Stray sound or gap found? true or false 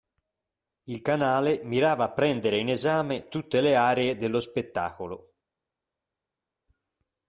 false